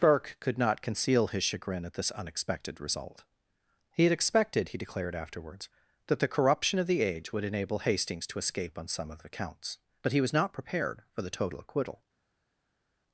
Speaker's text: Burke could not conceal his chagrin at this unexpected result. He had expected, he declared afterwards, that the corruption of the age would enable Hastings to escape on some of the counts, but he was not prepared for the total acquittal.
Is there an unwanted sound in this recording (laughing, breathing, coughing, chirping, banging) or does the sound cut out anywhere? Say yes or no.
no